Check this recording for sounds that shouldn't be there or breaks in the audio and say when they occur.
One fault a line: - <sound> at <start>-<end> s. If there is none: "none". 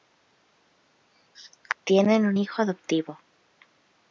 none